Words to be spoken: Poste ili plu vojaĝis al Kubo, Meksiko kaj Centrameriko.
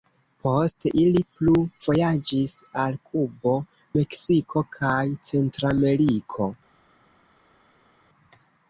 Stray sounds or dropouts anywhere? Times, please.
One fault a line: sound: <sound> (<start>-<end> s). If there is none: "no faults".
no faults